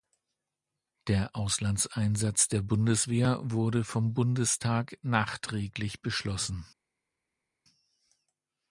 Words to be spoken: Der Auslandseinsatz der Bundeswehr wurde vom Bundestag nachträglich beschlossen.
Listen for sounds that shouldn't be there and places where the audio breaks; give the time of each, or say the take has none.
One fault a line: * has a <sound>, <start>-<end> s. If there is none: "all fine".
all fine